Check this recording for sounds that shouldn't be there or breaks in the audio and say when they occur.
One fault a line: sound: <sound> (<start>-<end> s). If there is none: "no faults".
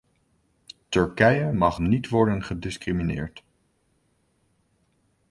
no faults